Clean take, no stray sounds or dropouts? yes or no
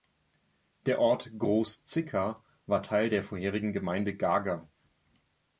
yes